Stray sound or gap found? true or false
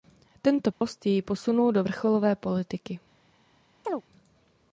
true